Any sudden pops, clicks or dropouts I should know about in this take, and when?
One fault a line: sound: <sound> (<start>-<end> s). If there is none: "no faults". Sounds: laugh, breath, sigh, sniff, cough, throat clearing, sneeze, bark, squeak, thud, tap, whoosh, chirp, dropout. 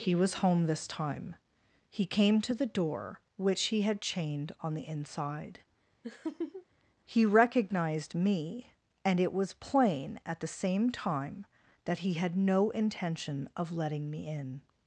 sound: laugh (6.0-6.7 s)